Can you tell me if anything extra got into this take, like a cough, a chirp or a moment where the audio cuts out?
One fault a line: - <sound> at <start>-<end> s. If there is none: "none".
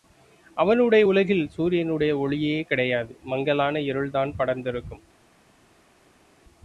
none